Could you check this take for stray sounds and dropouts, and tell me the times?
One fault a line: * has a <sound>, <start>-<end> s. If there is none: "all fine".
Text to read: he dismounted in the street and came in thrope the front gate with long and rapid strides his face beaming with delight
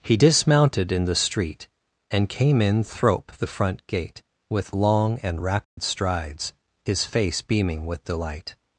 * has a dropout, 5.6-5.8 s